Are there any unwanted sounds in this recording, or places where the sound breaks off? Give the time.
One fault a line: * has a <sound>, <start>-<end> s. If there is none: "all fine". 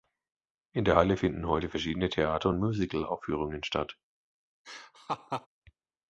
* has a laugh, 4.6-5.5 s